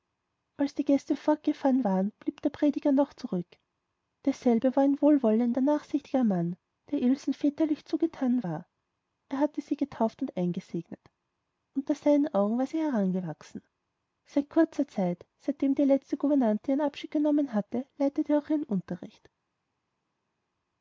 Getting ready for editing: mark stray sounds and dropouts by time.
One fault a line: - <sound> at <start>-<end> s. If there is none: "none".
none